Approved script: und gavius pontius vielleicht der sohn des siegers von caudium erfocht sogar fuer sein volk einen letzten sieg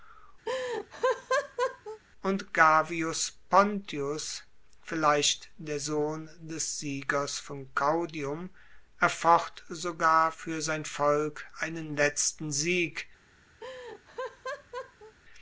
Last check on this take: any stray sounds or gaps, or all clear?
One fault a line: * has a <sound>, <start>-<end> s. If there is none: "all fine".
* has a laugh, 0.5-2.0 s
* has a laugh, 13.6-15.1 s